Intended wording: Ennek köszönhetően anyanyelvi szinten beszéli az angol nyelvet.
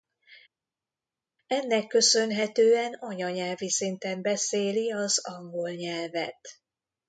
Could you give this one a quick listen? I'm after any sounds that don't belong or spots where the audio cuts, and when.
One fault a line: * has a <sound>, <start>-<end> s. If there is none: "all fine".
all fine